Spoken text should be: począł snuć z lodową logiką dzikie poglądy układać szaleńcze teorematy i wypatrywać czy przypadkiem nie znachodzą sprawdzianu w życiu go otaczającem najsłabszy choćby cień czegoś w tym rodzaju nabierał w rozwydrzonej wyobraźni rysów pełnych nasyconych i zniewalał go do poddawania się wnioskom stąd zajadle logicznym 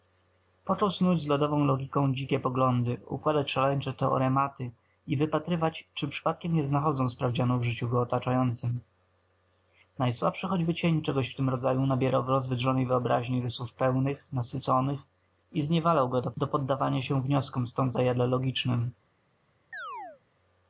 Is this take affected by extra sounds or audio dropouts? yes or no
yes